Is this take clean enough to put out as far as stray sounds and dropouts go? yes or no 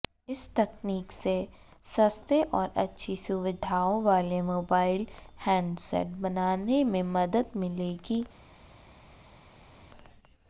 yes